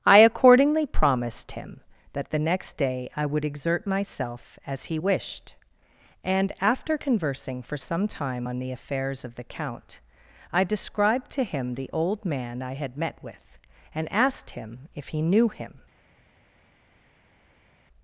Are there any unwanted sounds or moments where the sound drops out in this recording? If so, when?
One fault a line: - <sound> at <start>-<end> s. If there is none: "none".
none